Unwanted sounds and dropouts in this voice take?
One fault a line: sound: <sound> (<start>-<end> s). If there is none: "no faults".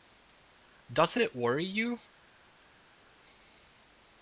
no faults